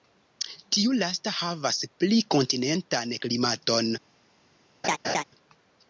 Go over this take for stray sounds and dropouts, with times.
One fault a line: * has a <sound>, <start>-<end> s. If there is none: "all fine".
* has a laugh, 4.8-5.2 s